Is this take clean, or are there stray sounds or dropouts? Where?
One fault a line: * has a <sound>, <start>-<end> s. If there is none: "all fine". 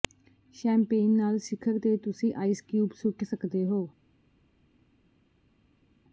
all fine